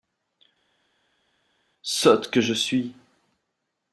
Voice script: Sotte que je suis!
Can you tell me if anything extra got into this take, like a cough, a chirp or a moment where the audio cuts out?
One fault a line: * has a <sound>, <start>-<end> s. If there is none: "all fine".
all fine